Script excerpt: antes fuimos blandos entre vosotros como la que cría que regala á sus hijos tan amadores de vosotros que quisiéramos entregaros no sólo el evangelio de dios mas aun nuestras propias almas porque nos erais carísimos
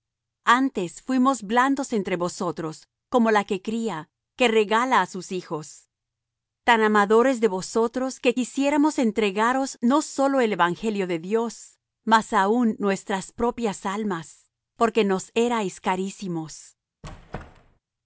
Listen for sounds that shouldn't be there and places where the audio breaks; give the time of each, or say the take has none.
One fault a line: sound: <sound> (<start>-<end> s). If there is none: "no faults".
sound: squeak (17.0-17.8 s)